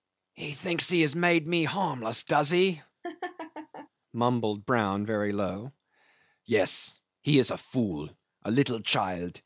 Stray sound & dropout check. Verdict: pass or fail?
fail